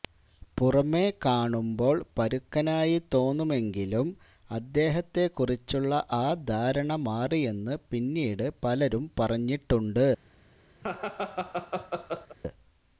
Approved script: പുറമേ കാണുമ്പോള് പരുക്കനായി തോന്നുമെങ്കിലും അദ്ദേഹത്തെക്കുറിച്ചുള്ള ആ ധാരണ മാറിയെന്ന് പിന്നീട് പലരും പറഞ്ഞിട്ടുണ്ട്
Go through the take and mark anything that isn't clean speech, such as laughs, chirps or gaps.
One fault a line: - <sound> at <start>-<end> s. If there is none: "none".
- laugh at 10.8-12.4 s